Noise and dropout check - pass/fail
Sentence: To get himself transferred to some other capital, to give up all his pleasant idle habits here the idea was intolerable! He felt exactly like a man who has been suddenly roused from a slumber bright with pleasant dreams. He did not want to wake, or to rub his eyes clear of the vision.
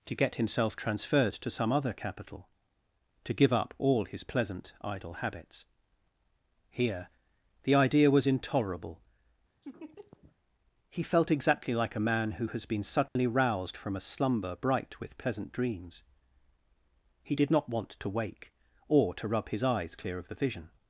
fail